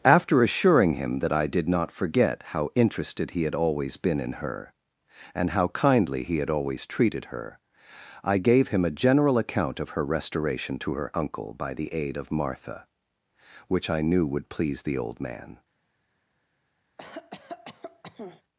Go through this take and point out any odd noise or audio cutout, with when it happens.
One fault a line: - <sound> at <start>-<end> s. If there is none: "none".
- cough at 17.0-18.4 s